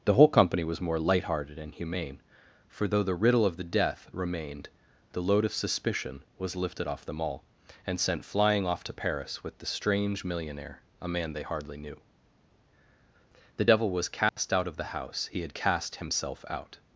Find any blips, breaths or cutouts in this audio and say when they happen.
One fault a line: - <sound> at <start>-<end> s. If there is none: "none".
- dropout at 14.3-14.4 s